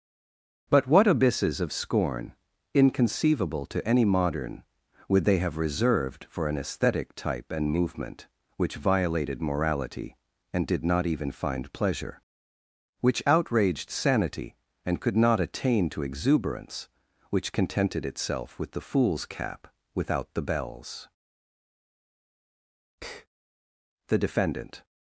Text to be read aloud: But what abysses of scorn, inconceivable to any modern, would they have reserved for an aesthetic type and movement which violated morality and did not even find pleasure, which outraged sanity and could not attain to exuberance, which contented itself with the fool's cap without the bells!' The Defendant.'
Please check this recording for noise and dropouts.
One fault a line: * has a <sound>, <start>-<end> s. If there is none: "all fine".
all fine